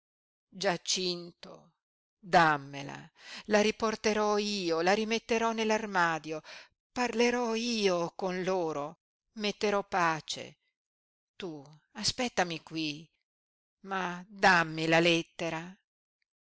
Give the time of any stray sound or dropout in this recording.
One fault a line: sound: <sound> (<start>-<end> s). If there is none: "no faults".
no faults